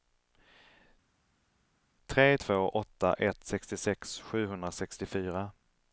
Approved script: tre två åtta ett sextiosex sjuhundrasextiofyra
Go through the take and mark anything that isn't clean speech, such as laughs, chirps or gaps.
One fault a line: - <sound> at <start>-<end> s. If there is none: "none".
none